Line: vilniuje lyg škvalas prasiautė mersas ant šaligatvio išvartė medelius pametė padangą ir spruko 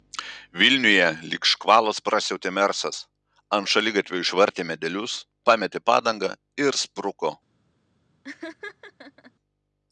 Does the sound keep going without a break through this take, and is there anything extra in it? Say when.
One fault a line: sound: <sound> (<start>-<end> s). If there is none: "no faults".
sound: laugh (8.2-9.3 s)